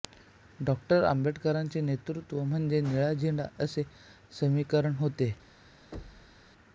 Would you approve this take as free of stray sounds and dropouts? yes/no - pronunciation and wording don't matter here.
no